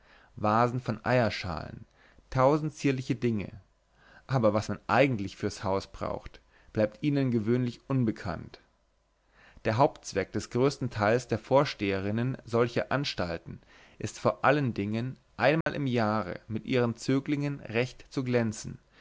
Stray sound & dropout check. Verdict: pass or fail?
fail